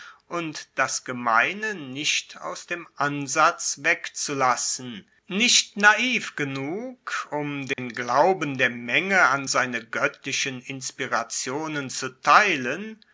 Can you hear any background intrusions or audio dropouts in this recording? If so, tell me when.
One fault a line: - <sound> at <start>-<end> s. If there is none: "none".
- dropout at 7.7-7.8 s